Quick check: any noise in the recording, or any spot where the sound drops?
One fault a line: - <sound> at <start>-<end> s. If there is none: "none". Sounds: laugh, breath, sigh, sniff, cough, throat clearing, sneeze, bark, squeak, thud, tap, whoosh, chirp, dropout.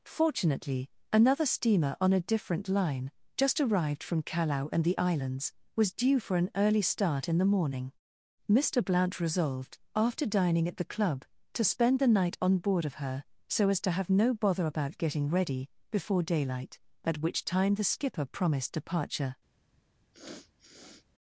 - sniff at 20.1-21.1 s